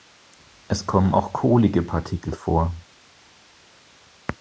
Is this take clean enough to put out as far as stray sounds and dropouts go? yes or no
yes